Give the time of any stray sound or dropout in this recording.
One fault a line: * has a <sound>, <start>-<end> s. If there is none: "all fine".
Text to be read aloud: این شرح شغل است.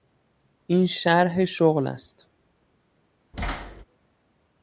* has a thud, 3.3-3.8 s